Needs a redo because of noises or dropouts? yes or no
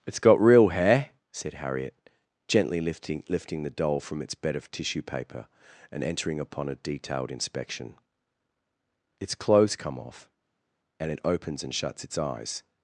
no